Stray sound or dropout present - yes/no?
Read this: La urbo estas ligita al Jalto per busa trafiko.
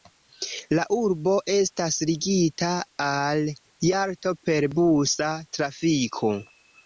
no